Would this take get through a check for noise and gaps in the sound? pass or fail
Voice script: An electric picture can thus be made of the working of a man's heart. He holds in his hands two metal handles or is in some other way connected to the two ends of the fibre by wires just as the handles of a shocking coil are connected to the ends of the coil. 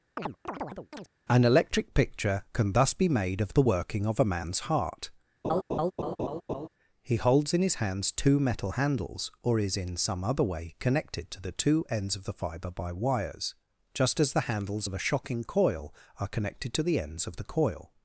fail